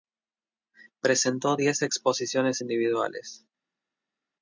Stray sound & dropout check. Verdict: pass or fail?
pass